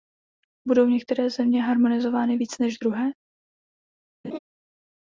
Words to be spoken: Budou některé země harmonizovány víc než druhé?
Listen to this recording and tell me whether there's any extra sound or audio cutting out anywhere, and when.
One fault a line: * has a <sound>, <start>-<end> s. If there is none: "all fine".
* has a laugh, 4.2-4.4 s